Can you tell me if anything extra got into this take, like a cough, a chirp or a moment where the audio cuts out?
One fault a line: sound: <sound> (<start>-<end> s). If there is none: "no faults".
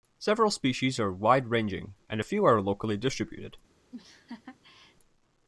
sound: laugh (3.9-5.0 s)